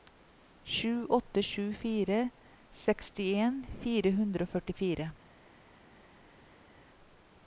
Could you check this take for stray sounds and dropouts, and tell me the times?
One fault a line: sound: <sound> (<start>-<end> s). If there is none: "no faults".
no faults